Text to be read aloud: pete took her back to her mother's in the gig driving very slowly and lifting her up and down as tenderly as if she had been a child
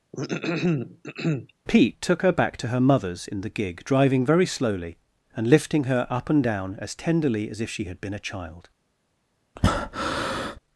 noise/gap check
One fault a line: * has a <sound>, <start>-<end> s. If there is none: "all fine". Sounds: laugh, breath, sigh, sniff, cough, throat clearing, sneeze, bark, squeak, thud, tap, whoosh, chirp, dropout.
* has a throat clearing, 0.1-1.5 s
* has a breath, 9.6-10.6 s